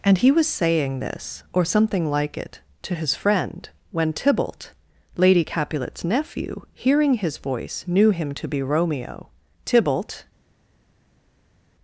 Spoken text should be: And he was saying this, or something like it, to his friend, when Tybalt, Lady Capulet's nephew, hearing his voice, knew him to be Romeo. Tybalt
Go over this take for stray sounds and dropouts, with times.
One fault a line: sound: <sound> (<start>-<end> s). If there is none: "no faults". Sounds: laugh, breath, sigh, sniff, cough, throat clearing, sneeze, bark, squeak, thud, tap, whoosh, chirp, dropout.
no faults